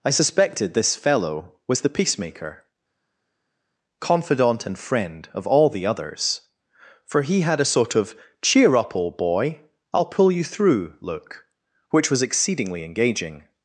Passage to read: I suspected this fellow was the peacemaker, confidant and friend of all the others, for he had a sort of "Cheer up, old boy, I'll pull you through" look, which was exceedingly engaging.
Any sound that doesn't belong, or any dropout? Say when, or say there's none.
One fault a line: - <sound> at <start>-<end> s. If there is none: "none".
none